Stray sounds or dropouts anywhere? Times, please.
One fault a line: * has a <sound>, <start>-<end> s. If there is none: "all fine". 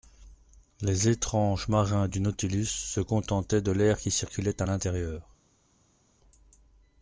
all fine